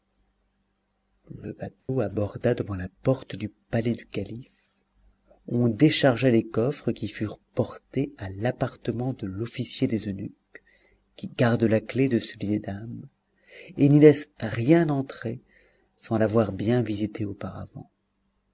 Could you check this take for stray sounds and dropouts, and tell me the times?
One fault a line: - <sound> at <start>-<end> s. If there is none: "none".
- dropout at 1.8-1.9 s